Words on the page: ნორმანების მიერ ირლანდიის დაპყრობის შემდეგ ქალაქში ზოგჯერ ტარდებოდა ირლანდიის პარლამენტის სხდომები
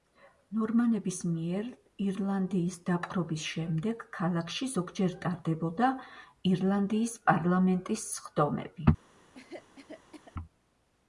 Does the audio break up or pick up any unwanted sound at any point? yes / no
yes